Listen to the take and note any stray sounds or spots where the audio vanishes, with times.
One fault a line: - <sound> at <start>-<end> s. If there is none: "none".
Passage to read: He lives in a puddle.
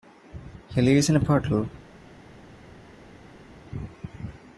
none